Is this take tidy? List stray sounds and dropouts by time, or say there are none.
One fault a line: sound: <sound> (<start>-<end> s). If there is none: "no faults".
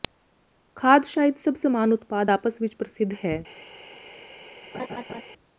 sound: laugh (4.7-5.2 s)